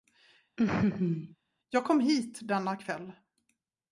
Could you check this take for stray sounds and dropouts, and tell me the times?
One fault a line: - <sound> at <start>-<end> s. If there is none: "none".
- laugh at 0.6-1.4 s